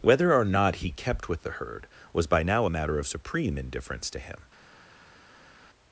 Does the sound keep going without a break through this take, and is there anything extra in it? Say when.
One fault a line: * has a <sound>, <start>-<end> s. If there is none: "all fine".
all fine